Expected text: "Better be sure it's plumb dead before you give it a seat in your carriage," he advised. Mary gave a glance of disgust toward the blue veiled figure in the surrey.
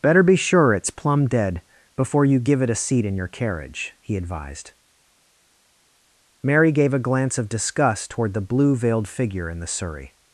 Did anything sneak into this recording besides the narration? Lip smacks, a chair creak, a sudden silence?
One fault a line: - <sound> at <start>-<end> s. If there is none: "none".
none